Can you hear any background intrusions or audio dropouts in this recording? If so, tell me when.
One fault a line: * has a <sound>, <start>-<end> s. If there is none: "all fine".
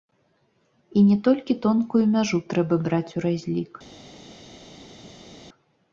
all fine